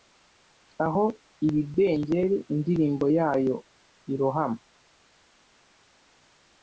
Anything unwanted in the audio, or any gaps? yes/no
no